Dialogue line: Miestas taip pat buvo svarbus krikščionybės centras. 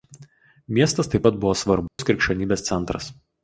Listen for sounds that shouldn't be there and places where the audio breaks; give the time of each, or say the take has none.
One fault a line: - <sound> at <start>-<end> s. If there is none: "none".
- dropout at 1.9-2.0 s